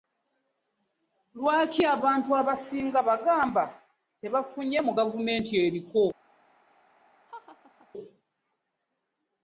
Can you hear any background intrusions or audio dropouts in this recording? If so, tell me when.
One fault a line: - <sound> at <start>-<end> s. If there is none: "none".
- laugh at 7.3-7.9 s